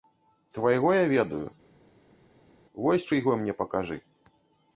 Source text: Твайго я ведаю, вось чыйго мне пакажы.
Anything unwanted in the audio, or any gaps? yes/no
no